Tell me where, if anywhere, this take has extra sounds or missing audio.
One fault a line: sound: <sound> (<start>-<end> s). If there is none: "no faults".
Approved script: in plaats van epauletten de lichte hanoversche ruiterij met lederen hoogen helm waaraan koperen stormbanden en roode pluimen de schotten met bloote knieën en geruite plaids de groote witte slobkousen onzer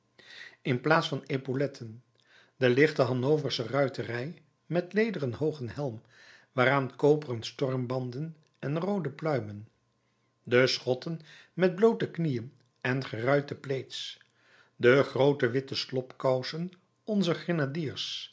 no faults